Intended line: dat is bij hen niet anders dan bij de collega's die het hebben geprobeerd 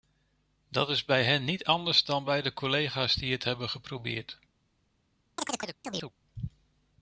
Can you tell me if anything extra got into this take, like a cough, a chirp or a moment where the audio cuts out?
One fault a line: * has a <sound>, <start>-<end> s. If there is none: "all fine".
* has a chirp, 5.4-6.1 s